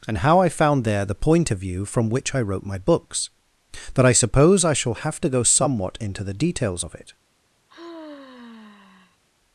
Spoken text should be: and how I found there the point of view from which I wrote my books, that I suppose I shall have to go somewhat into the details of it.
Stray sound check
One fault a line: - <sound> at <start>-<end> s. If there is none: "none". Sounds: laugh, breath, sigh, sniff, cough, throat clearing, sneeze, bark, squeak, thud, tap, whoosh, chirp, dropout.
- sigh at 7.7-9.2 s